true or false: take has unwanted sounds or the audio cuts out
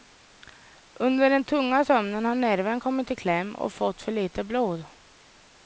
false